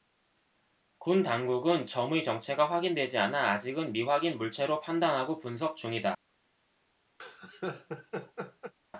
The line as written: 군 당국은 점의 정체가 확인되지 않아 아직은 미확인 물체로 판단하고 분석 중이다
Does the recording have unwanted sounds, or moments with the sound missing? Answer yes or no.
yes